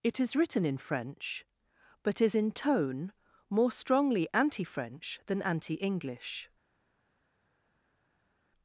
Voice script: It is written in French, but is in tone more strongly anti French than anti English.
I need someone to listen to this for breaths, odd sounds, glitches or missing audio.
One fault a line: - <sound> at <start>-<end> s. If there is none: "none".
none